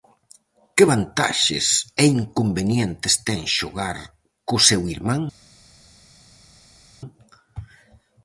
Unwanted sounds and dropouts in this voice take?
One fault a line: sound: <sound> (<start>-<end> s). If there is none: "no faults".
no faults